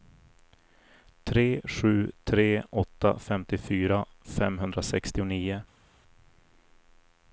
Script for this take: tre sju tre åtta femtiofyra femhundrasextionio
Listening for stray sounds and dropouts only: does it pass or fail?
pass